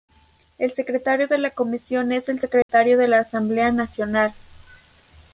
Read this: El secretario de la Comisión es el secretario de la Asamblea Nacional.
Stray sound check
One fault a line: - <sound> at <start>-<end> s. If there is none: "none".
- dropout at 2.6-2.7 s